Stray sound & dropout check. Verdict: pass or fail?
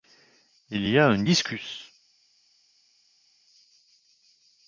pass